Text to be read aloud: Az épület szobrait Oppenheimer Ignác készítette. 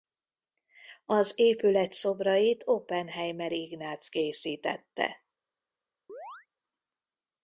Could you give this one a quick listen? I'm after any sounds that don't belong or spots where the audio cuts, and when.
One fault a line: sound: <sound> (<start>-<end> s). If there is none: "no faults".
sound: chirp (6.1-6.5 s)